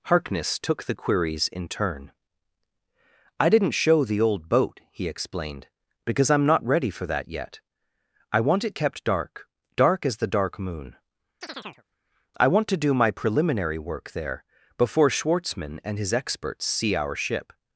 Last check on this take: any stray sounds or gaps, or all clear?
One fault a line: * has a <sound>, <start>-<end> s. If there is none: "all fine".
* has a chirp, 11.4-11.8 s